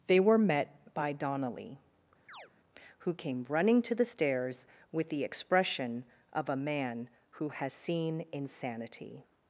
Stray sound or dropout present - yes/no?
yes